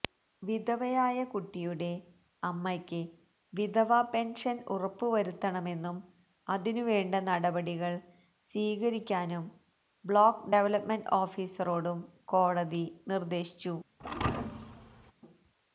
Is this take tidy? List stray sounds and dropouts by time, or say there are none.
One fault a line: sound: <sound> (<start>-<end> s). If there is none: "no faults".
sound: thud (14.0-15.1 s)